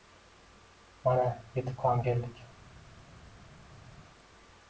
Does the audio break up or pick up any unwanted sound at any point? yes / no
no